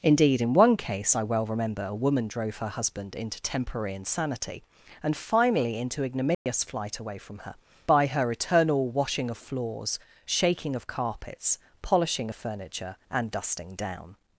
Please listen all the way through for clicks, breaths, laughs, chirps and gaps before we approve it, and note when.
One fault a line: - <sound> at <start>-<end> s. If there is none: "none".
- dropout at 6.3-6.5 s